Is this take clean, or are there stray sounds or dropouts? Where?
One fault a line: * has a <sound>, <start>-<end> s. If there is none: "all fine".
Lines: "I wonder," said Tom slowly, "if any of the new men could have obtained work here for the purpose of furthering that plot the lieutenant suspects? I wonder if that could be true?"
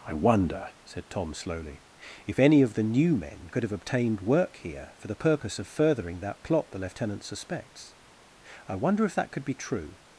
all fine